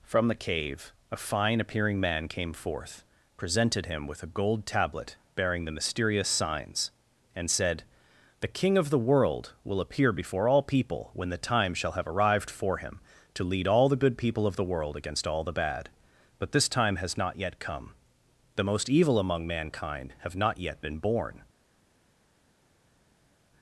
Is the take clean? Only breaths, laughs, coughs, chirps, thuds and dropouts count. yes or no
yes